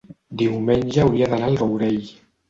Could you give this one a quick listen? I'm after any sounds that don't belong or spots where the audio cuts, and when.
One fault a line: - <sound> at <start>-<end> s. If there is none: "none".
none